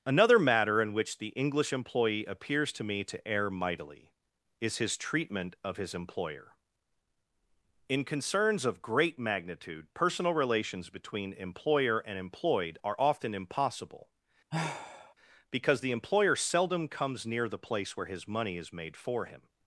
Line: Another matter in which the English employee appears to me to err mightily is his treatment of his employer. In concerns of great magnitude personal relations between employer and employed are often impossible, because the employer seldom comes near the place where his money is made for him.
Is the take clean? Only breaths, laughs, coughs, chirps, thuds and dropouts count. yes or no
no